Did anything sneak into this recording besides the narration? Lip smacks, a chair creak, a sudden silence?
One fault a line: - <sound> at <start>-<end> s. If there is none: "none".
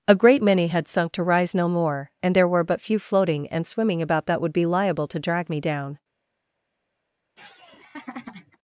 - laugh at 7.4-8.6 s